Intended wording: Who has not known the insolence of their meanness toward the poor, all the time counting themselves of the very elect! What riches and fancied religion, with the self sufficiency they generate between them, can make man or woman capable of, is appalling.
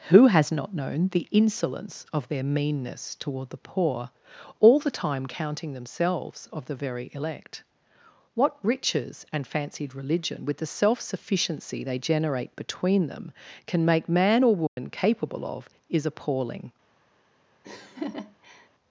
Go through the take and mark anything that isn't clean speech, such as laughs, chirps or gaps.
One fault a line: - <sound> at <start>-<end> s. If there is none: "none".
- dropout at 14.7-14.8 s
- laugh at 17.6-18.7 s